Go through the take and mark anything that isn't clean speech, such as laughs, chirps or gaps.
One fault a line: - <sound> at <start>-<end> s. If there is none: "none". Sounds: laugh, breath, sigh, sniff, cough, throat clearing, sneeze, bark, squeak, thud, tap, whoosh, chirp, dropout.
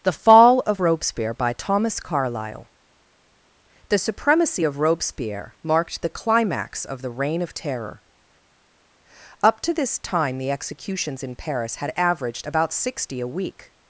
none